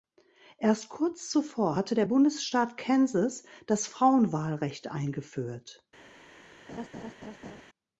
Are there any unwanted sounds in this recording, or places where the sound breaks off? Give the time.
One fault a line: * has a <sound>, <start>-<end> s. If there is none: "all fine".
* has a laugh, 6.7-7.6 s